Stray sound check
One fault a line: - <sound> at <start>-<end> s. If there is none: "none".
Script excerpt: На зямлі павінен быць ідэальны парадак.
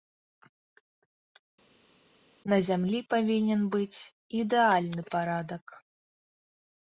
none